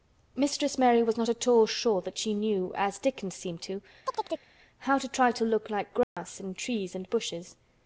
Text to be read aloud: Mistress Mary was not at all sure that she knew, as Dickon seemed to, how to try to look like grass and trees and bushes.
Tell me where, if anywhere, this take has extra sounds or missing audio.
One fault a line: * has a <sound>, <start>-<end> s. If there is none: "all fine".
* has a chirp, 4.0-4.5 s
* has a dropout, 6.0-6.2 s